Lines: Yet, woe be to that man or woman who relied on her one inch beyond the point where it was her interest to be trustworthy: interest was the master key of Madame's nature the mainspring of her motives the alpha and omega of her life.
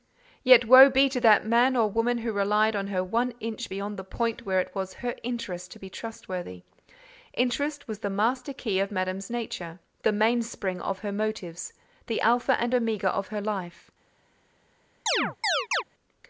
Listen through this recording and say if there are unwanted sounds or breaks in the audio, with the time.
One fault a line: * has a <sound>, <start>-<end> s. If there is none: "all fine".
* has a chirp, 15.1-15.8 s